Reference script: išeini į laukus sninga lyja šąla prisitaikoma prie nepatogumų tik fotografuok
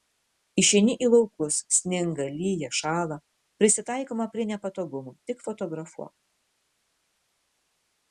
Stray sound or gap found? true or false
false